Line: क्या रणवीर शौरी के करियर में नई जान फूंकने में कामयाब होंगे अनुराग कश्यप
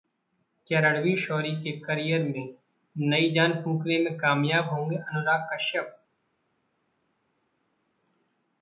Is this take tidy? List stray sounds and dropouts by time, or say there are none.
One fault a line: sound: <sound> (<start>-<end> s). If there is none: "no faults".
no faults